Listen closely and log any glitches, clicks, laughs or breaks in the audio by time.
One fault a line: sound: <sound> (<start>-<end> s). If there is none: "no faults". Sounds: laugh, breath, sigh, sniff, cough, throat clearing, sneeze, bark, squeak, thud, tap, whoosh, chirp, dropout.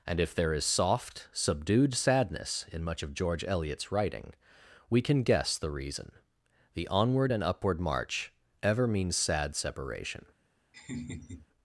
sound: laugh (10.7-11.5 s)